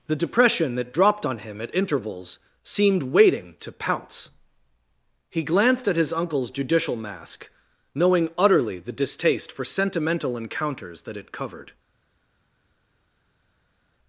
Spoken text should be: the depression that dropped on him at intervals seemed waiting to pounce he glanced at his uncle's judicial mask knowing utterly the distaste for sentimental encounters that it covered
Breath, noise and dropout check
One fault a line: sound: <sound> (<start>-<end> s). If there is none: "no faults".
no faults